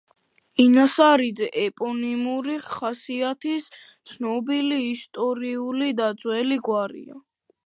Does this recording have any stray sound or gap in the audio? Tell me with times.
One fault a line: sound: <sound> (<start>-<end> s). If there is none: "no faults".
no faults